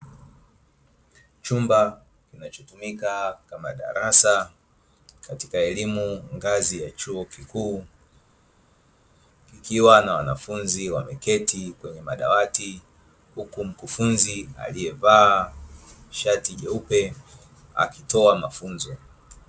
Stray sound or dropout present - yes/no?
no